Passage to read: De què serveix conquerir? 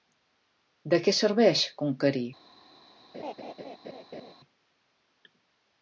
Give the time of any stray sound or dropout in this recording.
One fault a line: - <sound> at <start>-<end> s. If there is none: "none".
- laugh at 3.1-4.3 s